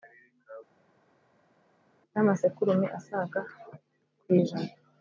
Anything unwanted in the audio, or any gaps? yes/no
no